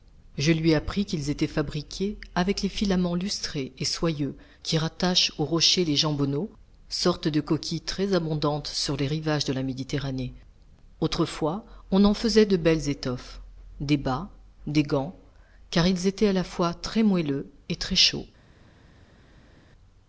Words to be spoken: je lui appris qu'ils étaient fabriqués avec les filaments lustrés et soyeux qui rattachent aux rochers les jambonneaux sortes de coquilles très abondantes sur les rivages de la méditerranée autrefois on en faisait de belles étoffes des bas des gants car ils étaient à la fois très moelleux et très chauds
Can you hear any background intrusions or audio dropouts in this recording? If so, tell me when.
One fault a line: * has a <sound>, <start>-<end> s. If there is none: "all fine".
all fine